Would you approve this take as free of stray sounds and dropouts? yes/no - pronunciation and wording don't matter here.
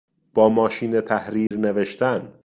no